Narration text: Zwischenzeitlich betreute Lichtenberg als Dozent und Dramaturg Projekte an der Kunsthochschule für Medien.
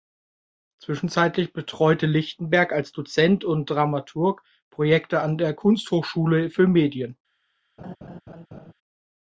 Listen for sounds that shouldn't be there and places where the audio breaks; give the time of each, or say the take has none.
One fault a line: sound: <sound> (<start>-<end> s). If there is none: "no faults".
sound: laugh (7.8-8.7 s)